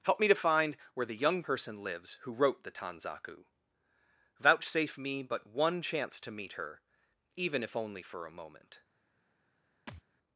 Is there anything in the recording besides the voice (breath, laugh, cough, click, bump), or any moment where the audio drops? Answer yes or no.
yes